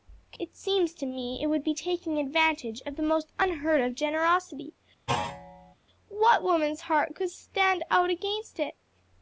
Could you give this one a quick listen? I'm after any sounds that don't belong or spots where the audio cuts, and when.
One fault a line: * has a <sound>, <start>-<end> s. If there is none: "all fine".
* has a thud, 5.1-5.7 s